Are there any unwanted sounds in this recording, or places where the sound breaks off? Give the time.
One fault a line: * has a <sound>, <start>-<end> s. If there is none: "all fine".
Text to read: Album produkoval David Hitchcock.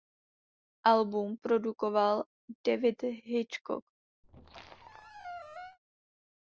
* has a squeak, 4.2-5.8 s